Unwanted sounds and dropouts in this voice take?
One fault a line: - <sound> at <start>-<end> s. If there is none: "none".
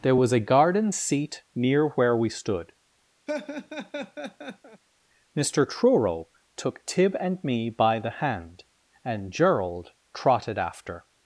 - laugh at 3.3-4.8 s